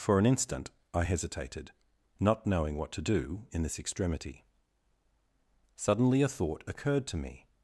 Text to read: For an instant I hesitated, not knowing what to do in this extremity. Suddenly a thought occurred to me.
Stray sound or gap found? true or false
false